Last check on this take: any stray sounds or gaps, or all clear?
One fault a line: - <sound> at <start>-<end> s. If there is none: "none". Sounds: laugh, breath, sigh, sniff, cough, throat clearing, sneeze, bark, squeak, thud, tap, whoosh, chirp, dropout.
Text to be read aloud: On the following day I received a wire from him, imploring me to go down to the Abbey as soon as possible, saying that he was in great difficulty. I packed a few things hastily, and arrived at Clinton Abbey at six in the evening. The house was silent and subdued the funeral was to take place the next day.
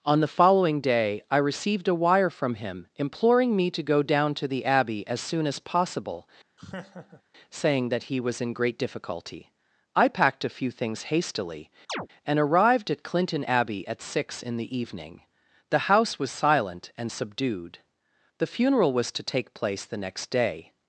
- laugh at 6.6-7.2 s
- chirp at 11.9-12.1 s